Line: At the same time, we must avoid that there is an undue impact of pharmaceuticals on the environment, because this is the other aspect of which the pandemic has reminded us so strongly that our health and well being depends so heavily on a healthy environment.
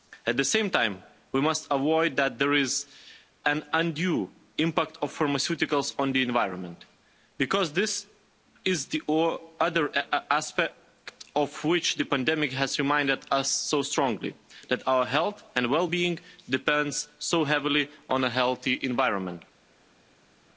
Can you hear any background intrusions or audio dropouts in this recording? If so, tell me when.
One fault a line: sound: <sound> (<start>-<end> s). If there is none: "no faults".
no faults